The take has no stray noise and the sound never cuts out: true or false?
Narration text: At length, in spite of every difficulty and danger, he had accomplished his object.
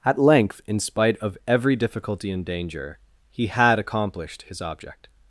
true